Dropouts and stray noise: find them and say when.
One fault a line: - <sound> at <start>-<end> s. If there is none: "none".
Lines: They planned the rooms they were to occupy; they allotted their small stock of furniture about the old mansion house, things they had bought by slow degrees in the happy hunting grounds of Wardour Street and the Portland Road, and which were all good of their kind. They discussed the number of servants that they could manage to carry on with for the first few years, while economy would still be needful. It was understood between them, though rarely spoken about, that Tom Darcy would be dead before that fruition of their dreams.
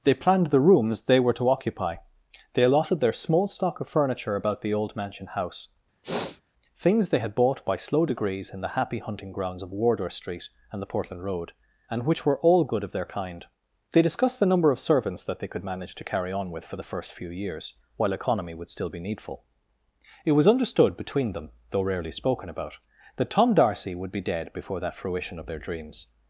- sniff at 6.0-6.4 s